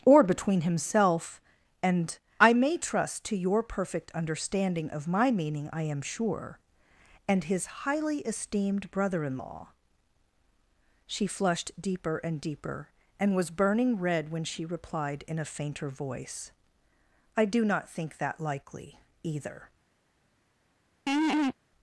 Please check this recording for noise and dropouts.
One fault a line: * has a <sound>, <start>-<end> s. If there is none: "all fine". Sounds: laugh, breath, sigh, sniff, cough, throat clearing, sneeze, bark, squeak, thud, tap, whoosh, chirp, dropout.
* has a laugh, 21.1-21.5 s